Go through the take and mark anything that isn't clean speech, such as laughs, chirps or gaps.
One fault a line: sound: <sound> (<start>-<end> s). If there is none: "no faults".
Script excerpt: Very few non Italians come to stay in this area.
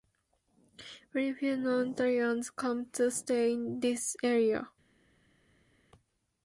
no faults